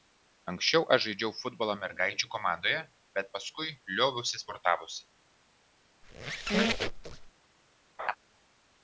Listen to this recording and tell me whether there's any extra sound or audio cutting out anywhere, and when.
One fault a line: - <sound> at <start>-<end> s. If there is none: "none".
- squeak at 6.0-7.3 s
- laugh at 8.0-8.2 s